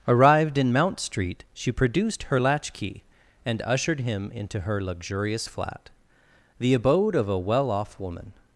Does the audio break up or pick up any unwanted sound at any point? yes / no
no